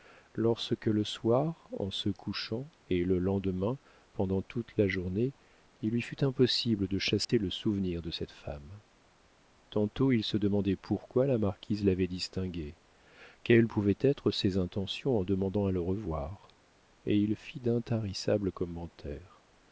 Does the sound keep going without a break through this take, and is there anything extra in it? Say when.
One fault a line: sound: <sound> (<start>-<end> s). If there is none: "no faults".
sound: dropout (7.2-7.3 s)